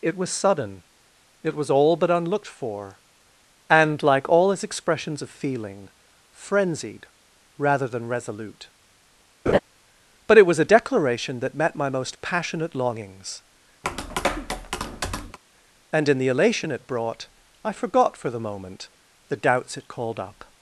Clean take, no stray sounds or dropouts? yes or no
no